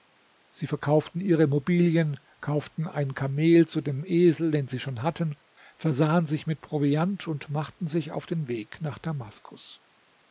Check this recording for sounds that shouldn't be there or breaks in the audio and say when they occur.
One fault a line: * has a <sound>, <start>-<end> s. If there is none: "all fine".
all fine